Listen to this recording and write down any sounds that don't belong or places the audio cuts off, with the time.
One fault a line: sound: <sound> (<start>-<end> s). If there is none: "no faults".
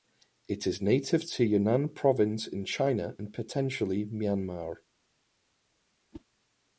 sound: whoosh (6.1-6.3 s)